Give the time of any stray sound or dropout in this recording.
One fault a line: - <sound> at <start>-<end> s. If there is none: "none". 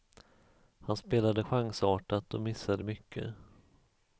none